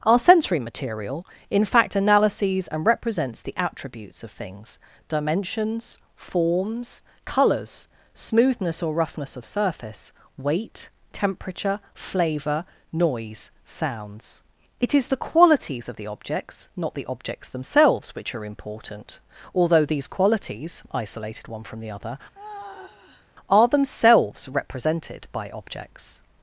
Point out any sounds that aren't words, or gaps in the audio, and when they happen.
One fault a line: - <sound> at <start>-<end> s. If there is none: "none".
- sigh at 22.3-23.3 s